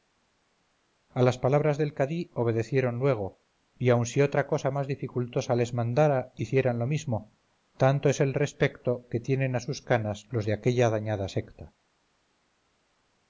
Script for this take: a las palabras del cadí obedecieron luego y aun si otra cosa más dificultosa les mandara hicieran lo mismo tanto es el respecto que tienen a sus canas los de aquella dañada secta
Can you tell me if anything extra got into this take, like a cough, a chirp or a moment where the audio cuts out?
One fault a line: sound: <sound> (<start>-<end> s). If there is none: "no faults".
no faults